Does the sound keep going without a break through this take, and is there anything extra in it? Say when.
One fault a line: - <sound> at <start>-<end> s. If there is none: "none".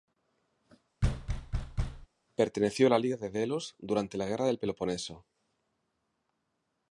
- thud at 1.0-2.1 s